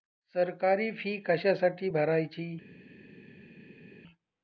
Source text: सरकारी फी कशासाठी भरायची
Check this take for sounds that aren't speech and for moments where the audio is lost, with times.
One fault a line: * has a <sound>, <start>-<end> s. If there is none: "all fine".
all fine